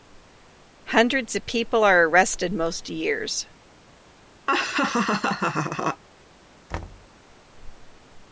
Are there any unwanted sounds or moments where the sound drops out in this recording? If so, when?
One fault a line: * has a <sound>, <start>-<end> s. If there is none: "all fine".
* has a laugh, 4.5-6.0 s
* has a thud, 6.7-7.1 s